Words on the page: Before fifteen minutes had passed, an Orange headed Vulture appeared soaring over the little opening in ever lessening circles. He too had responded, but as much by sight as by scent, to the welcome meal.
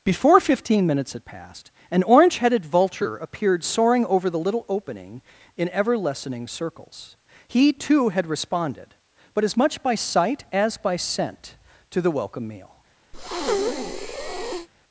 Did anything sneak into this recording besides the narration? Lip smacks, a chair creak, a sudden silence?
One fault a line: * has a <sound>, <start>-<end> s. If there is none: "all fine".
* has a breath, 13.1-14.7 s